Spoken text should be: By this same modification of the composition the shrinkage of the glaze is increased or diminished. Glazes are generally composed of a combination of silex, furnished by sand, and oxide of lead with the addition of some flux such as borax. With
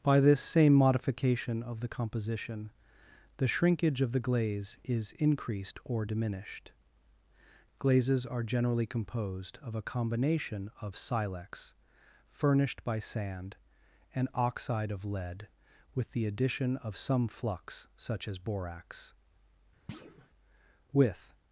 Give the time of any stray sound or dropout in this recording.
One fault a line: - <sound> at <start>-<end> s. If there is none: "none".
- thud at 19.9-20.3 s